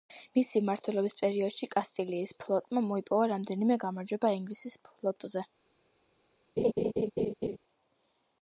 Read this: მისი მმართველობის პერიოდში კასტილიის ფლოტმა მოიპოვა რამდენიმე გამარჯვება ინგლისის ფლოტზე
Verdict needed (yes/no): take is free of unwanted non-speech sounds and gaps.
no